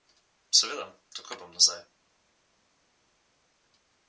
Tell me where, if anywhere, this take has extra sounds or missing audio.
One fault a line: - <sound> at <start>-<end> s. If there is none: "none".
none